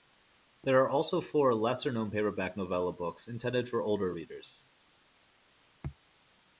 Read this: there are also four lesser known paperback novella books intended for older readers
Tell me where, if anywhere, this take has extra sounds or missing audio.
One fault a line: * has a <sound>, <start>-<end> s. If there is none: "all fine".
all fine